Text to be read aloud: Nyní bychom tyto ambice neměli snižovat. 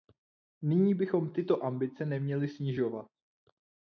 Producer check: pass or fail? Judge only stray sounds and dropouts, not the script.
pass